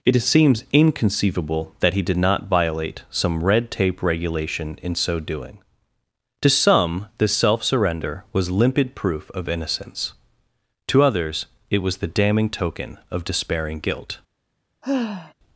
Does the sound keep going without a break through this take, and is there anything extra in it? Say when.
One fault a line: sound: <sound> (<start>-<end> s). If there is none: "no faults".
sound: sigh (14.8-15.3 s)